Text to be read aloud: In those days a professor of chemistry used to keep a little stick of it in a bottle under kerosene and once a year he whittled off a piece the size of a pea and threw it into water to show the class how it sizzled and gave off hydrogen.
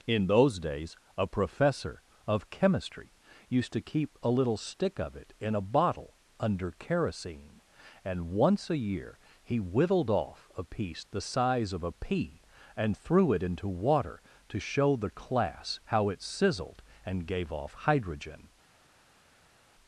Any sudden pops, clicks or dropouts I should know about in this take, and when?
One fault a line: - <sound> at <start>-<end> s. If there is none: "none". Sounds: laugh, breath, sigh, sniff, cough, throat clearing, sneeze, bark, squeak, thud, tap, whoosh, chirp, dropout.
none